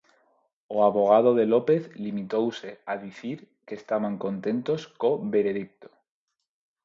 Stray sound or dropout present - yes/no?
no